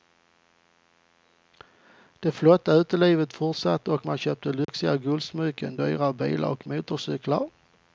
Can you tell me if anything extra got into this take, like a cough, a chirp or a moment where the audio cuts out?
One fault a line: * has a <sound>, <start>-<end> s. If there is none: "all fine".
* has a dropout, 4.6-4.7 s